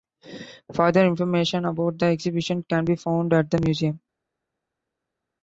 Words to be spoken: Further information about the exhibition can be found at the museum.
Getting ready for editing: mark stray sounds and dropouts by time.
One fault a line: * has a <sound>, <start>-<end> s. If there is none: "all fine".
all fine